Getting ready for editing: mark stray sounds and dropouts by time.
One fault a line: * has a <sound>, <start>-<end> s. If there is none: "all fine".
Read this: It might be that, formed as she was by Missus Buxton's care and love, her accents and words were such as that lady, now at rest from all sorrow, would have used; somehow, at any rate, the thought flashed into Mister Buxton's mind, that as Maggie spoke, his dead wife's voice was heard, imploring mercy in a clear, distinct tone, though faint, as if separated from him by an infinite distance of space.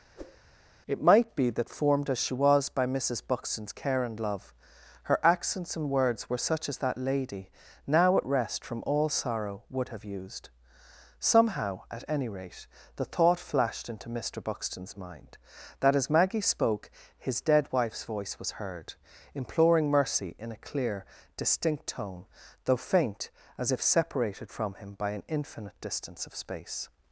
* has a whoosh, 0.2-0.4 s